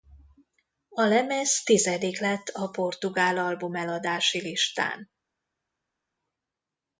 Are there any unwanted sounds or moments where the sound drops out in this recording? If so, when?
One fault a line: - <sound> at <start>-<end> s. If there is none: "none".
none